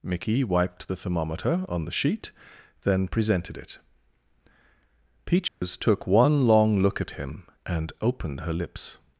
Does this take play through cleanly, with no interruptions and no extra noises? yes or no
no